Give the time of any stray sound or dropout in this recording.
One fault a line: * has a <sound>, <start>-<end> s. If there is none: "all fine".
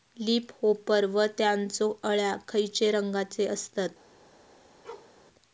* has a bark, 4.8-5.1 s